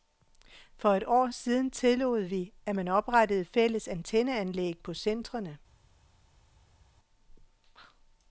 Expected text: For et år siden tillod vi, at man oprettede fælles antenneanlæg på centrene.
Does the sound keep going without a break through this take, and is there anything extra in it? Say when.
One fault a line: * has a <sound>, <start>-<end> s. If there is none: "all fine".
all fine